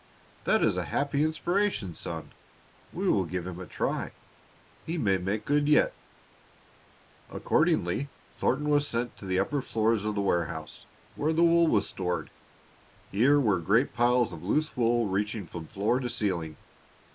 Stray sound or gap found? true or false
false